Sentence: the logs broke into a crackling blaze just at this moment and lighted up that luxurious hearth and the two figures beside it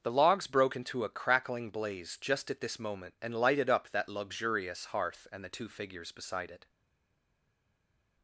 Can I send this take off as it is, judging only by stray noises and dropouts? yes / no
yes